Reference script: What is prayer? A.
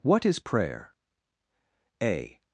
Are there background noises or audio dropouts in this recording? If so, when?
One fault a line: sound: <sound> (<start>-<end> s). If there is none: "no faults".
no faults